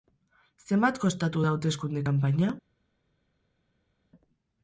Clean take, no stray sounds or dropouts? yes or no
yes